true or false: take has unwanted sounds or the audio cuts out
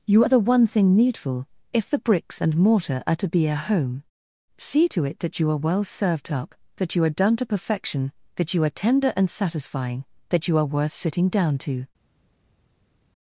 false